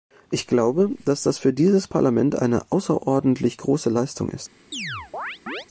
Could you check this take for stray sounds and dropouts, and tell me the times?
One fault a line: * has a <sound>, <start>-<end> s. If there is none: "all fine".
* has a chirp, 4.7-5.7 s